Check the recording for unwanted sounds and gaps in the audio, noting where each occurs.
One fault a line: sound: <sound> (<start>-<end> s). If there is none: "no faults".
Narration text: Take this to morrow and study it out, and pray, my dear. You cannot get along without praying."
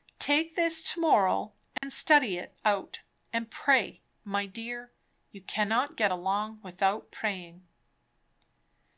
sound: dropout (1.8-1.8 s)